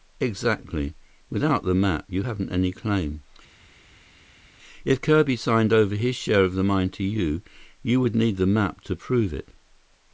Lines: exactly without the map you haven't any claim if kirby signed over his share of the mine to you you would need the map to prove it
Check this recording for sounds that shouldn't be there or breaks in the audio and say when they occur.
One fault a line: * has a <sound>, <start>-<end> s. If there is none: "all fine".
all fine